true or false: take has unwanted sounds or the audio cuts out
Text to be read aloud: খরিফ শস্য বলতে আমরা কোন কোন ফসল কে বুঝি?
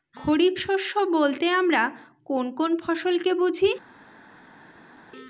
false